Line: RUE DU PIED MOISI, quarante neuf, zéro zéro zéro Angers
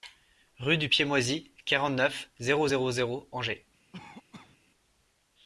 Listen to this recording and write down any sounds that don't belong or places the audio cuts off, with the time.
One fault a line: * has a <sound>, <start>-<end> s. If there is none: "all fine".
* has a cough, 3.9-4.6 s